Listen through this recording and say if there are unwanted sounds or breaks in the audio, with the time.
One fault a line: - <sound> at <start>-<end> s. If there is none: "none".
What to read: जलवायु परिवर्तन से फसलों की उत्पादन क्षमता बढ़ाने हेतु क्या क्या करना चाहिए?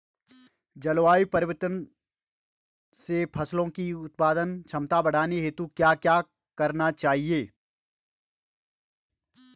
none